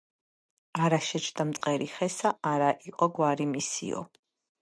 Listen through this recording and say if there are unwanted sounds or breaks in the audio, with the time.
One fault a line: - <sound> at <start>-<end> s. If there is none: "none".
- dropout at 1.6-1.6 s